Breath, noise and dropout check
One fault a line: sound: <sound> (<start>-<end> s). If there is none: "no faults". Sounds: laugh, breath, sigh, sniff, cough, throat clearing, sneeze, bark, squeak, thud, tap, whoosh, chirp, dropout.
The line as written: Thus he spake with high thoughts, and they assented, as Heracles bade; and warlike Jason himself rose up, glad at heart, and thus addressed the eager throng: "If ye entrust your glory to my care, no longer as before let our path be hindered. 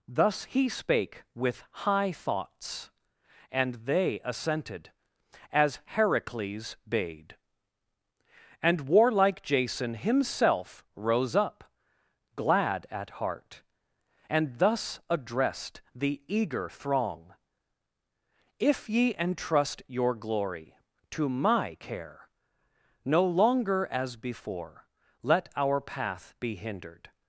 no faults